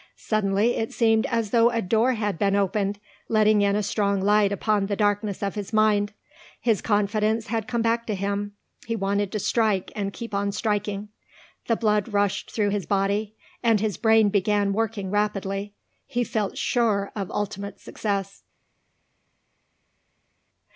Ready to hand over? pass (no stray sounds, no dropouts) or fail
pass